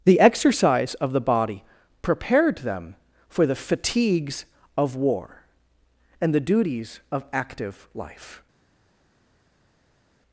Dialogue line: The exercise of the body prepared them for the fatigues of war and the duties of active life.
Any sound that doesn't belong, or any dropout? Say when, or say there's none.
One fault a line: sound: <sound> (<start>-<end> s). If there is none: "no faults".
no faults